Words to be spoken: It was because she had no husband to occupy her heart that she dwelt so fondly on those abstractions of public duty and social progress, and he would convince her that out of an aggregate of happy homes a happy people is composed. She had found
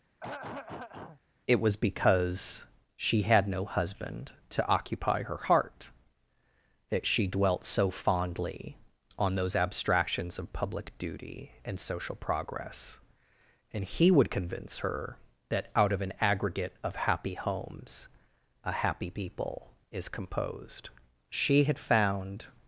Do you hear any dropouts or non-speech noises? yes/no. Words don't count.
yes